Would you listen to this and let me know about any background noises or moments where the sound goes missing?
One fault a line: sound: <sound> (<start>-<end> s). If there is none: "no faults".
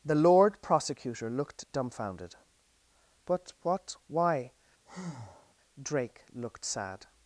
sound: breath (4.9-5.5 s)